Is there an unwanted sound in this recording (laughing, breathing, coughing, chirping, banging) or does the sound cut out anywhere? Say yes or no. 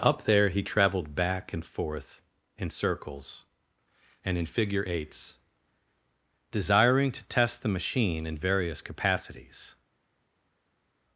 no